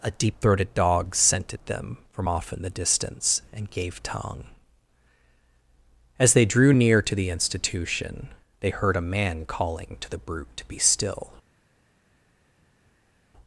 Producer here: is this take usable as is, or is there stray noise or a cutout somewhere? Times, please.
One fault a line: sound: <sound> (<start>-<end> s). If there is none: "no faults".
no faults